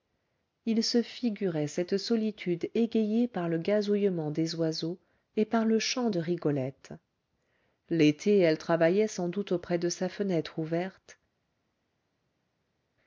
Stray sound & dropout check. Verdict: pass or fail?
pass